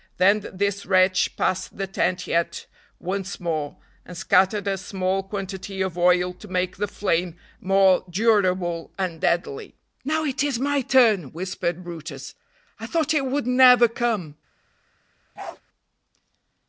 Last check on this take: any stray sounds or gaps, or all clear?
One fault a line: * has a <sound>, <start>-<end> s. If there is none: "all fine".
* has a bark, 15.4-15.6 s